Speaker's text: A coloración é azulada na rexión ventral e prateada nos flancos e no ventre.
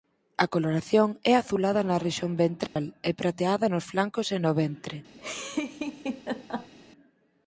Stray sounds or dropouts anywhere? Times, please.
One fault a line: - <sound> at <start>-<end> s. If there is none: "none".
- dropout at 2.7-2.8 s
- laugh at 5.2-6.7 s